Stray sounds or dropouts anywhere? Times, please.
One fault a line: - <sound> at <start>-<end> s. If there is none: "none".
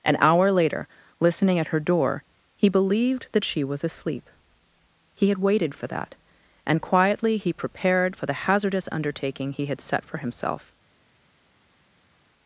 none